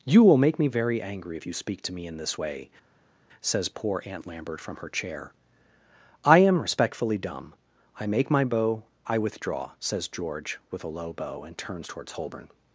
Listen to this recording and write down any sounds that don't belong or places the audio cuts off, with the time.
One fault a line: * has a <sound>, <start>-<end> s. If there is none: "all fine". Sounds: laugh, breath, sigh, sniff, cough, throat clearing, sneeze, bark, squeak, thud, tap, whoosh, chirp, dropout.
all fine